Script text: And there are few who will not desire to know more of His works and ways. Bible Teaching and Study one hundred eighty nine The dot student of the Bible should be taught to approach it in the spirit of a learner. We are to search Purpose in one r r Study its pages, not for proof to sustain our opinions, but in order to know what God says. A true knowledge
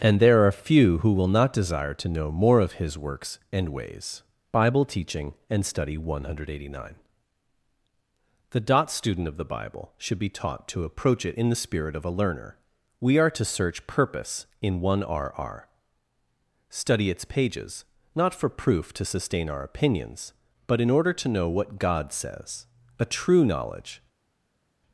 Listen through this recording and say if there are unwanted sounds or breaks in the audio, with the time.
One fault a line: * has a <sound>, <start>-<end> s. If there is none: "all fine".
all fine